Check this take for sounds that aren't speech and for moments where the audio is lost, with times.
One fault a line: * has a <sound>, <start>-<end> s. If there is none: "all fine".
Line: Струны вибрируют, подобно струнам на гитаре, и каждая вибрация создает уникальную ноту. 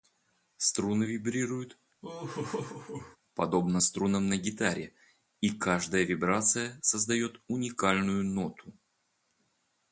* has a laugh, 2.0-3.2 s